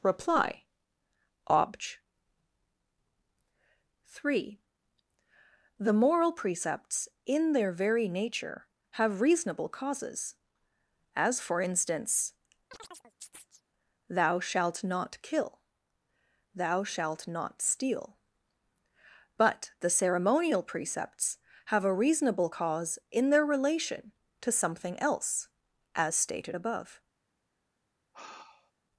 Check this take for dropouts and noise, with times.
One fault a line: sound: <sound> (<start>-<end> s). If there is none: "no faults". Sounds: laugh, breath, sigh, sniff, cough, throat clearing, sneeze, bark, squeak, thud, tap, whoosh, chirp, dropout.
sound: chirp (12.7-13.6 s)
sound: sigh (28.1-28.7 s)